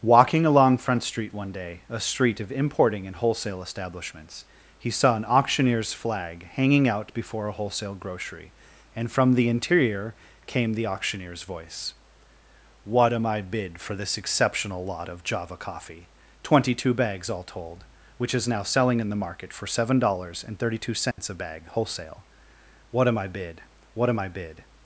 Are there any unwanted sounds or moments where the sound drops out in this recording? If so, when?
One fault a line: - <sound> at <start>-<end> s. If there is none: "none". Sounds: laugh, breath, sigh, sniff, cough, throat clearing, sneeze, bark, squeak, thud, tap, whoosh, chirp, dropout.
- dropout at 21.1-21.2 s